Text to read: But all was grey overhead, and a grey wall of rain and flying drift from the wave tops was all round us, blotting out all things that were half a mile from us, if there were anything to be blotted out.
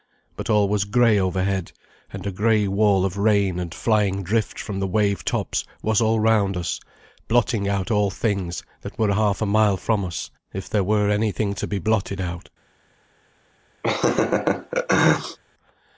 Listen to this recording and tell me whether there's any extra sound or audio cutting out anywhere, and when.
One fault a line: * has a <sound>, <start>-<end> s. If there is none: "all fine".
* has a laugh, 13.8-15.4 s